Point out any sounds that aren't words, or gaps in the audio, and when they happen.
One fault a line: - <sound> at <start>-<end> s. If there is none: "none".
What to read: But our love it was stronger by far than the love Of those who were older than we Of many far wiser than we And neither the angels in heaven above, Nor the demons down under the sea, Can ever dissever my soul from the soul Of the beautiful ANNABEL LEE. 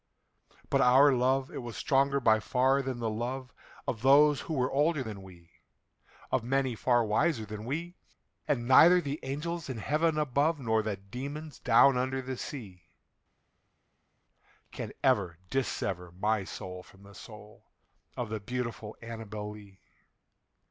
none